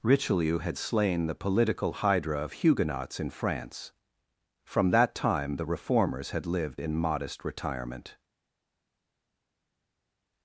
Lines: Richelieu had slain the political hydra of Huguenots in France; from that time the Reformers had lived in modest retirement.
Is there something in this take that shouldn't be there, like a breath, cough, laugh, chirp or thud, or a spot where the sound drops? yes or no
no